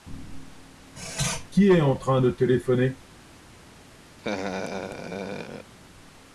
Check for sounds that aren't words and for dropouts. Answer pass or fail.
fail